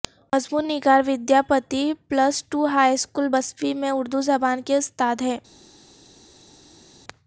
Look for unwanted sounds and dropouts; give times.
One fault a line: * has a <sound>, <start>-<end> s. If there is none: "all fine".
all fine